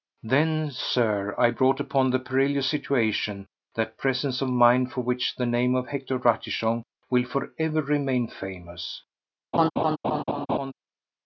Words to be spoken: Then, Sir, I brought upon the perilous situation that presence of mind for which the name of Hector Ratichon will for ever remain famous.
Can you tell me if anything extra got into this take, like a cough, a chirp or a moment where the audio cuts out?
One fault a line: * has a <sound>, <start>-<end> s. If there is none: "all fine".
* has a laugh, 9.5-10.7 s